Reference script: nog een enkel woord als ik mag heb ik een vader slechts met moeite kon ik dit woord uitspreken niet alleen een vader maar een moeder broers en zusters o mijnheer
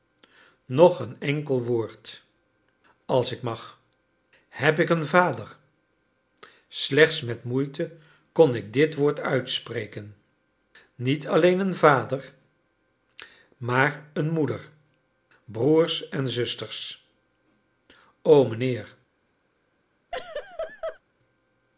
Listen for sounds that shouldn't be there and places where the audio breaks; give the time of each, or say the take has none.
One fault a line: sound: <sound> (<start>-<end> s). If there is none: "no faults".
sound: laugh (20.1-21.0 s)